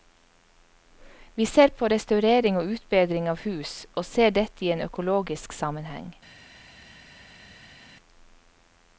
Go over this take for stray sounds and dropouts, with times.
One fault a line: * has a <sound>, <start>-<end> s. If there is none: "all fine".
all fine